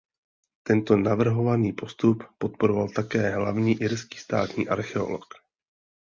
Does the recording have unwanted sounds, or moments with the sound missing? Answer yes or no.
no